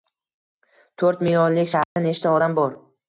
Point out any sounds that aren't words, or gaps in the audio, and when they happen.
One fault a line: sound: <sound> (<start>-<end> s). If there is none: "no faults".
sound: dropout (1.8-2.0 s)